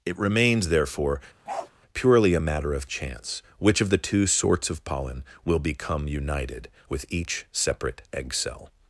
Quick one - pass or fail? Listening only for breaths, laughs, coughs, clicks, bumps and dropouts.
fail